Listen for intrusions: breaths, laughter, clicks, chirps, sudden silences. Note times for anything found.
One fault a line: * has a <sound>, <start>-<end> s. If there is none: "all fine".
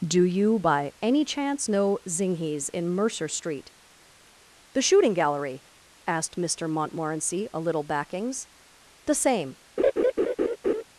* has a laugh, 9.8-10.8 s